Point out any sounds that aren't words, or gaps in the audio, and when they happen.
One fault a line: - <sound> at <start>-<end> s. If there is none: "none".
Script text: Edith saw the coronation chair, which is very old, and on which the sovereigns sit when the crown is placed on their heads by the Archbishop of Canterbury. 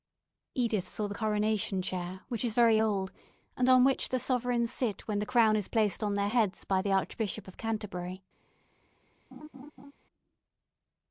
- laugh at 9.3-9.9 s